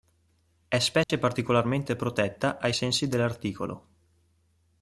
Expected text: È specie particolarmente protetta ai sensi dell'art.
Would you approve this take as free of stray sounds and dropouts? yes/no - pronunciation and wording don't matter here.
no